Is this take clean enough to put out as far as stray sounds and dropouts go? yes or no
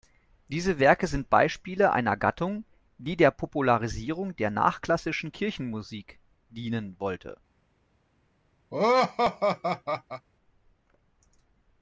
no